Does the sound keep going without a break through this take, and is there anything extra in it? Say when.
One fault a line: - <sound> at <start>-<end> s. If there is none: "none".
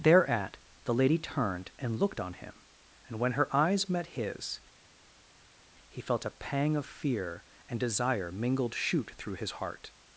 none